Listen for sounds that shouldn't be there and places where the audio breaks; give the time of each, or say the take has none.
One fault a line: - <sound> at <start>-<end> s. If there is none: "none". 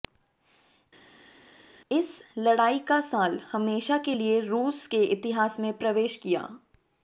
none